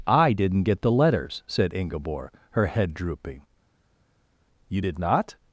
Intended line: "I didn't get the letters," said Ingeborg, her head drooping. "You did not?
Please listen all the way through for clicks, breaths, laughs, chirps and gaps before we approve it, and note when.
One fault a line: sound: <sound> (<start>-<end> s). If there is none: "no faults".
no faults